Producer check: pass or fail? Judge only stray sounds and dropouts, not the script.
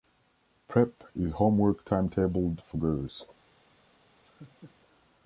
fail